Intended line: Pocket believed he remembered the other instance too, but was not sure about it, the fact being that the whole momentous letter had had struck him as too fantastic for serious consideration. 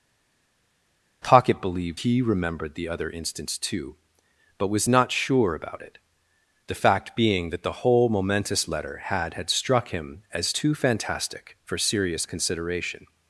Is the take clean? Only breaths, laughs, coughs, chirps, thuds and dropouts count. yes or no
yes